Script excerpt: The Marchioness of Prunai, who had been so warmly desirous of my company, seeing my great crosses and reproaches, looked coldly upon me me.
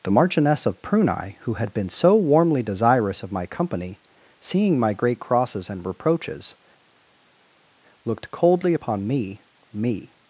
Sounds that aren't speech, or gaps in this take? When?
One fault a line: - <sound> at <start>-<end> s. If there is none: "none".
none